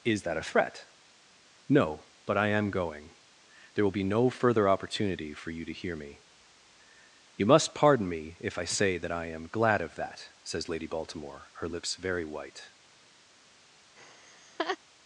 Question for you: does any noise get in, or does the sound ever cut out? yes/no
yes